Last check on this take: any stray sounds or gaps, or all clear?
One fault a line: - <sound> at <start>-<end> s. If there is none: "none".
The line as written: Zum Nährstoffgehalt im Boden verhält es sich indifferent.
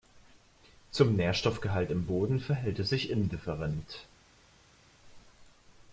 none